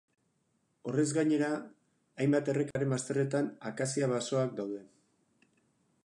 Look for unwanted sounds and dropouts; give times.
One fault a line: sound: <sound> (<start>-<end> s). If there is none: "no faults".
sound: dropout (2.7-2.8 s)